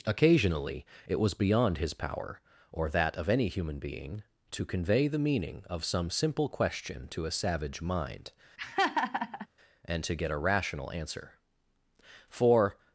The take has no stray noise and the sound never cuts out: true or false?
false